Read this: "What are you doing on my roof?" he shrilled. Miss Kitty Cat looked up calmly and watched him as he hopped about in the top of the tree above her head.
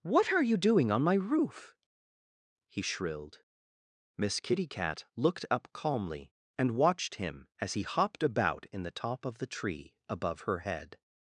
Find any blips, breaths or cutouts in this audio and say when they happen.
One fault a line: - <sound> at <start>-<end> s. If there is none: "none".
none